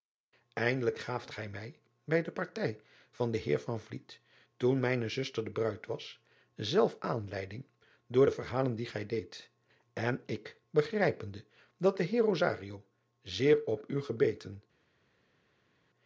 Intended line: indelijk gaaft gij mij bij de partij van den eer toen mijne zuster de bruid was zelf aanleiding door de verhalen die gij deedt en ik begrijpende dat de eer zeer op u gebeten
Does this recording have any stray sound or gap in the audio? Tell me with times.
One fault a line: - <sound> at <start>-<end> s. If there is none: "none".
none